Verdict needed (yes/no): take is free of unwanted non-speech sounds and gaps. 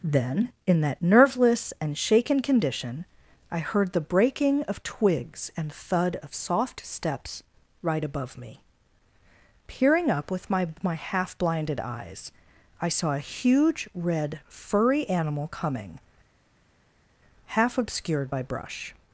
yes